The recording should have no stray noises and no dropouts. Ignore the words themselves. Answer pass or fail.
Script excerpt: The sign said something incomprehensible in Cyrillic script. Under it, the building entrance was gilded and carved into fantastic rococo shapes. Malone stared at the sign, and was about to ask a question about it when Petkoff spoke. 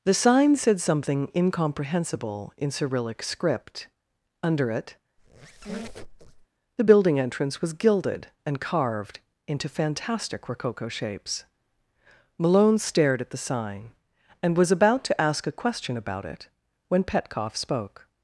fail